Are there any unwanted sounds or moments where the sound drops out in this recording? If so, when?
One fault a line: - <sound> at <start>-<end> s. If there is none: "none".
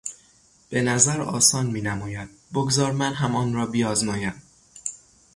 none